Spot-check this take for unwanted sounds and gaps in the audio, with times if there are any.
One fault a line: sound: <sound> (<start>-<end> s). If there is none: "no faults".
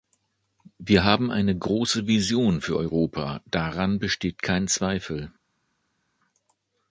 no faults